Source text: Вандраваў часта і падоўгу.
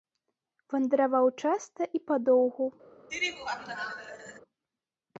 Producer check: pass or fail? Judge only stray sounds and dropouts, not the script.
fail